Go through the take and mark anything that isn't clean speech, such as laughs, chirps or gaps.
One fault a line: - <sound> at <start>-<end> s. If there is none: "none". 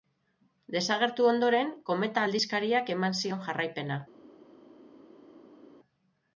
none